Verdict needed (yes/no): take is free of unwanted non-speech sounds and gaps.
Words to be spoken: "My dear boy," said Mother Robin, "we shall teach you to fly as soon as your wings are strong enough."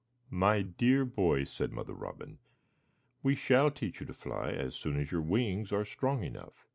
yes